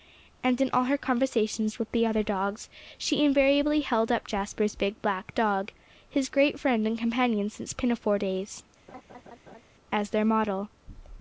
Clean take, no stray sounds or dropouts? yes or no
no